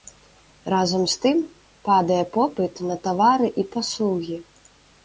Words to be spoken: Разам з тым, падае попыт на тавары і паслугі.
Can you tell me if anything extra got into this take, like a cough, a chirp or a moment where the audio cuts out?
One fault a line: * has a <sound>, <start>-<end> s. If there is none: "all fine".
all fine